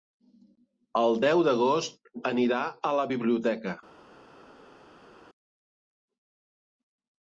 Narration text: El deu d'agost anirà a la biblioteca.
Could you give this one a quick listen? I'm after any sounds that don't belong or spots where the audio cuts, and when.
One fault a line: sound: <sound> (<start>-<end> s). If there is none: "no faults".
no faults